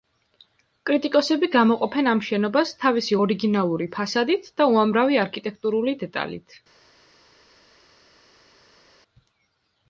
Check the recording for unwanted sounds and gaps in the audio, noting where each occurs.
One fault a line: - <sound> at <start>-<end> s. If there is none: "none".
none